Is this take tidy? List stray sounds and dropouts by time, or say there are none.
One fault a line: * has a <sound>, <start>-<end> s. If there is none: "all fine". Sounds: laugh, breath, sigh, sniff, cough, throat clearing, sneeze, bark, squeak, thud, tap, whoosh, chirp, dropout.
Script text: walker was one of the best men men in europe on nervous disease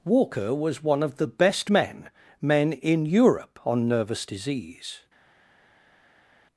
all fine